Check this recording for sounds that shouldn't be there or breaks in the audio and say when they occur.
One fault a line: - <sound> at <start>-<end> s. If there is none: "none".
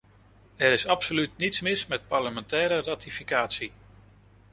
none